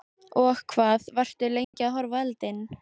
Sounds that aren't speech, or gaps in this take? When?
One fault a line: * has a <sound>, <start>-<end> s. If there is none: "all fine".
* has a dropout, 1.6-1.7 s